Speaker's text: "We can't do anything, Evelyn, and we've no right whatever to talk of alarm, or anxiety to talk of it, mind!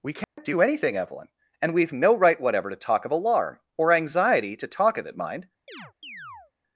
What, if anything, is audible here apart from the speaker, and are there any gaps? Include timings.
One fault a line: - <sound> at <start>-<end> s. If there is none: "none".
- dropout at 0.2-0.4 s
- chirp at 5.7-6.5 s